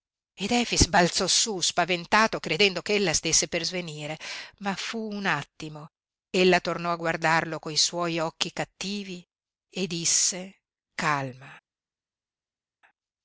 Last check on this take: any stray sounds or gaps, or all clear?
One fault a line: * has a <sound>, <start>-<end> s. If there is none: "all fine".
all fine